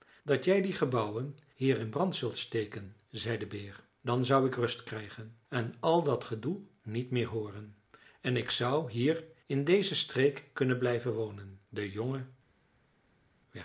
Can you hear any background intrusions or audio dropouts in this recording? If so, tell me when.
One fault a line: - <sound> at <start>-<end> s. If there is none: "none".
none